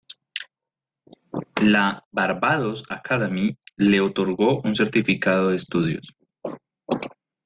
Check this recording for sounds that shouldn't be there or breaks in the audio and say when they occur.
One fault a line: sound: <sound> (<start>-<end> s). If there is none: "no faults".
no faults